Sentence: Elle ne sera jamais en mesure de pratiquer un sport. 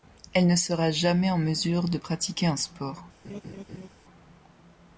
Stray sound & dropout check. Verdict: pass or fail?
fail